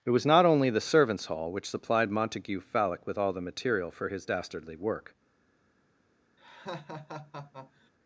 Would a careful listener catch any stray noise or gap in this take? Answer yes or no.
yes